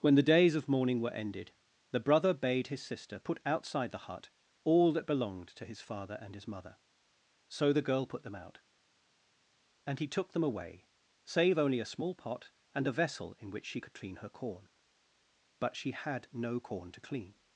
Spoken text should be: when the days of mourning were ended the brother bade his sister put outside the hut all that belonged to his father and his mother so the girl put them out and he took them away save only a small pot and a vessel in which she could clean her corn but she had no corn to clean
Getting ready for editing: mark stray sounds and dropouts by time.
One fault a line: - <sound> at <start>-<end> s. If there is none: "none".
none